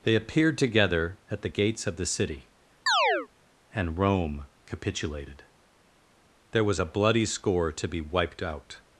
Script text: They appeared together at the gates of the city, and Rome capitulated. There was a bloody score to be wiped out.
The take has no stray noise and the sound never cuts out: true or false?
false